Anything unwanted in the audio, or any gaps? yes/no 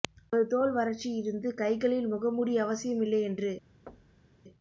yes